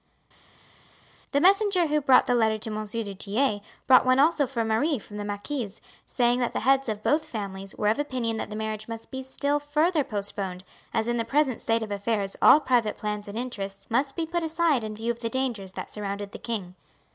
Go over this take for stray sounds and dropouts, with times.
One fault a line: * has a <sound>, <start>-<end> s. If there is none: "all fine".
all fine